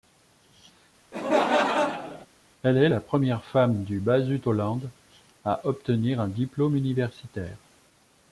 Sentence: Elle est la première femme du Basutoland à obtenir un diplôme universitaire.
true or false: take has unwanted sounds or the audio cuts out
true